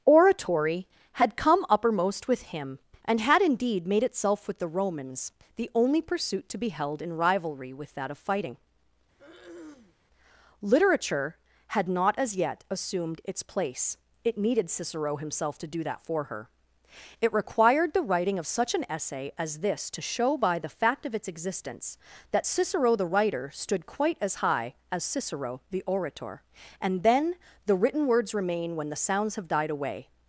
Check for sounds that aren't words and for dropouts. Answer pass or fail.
fail